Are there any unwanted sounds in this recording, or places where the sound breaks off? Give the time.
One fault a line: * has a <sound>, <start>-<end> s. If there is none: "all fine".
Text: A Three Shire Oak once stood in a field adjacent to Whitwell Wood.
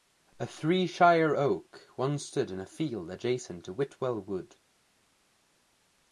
all fine